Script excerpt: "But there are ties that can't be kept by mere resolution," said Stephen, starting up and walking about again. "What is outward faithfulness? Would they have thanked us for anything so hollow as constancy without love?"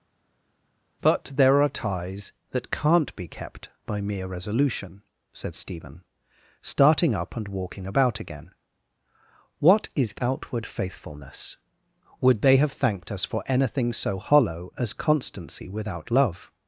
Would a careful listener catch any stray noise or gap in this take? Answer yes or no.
no